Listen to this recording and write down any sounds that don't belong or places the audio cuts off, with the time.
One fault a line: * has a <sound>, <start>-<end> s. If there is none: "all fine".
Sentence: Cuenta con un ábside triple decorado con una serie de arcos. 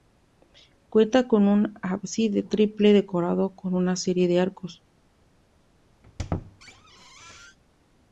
* has a squeak, 6.0-7.6 s